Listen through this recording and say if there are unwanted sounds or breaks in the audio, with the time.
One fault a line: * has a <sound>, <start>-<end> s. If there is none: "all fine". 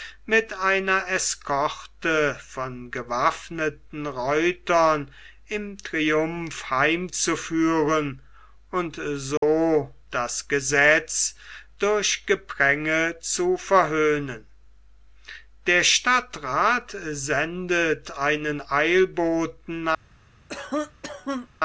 * has a dropout, 9.4-9.4 s
* has a cough, 20.5-21.5 s